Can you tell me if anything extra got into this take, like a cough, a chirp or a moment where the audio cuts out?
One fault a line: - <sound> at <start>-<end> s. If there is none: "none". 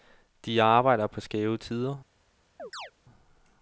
- chirp at 2.6-2.9 s